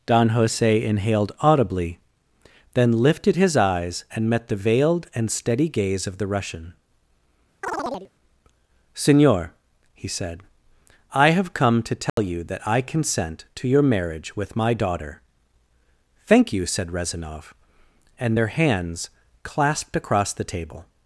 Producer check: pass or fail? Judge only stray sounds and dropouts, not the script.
fail